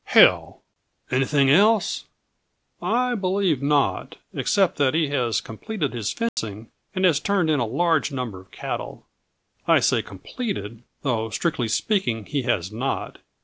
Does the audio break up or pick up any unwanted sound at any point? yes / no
yes